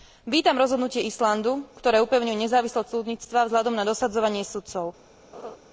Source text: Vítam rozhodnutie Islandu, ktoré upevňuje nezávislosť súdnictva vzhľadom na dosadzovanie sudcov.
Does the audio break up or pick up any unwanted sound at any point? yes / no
yes